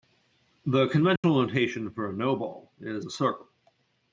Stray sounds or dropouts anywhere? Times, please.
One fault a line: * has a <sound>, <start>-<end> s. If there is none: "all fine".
* has a dropout, 1.2-1.2 s